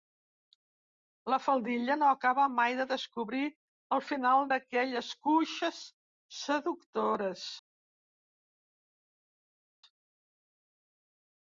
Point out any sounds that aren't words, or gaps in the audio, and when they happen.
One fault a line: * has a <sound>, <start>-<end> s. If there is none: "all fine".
all fine